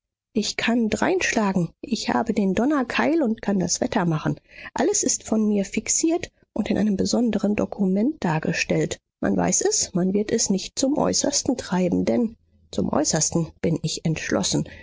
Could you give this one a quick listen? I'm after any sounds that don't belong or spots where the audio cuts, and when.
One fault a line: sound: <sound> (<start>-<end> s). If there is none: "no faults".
no faults